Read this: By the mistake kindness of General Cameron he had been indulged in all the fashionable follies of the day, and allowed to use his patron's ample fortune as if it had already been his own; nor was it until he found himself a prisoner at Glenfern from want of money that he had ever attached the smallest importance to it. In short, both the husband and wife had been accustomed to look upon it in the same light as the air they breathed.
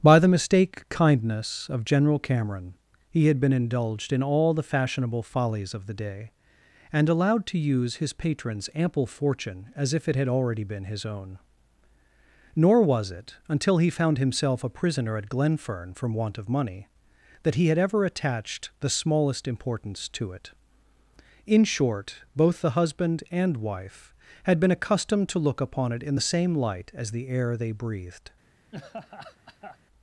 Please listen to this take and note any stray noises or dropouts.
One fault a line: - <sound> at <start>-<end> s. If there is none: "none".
- laugh at 28.7-29.8 s